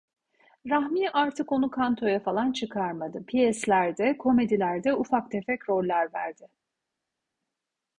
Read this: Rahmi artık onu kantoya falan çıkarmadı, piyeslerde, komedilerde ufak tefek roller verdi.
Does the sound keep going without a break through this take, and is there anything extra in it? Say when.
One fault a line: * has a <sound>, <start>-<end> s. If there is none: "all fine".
all fine